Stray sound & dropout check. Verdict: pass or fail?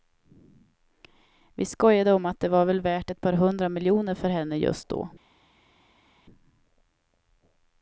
pass